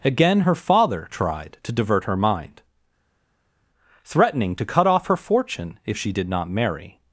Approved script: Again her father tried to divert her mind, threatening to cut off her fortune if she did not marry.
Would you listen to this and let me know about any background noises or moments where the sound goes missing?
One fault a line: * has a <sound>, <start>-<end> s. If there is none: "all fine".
all fine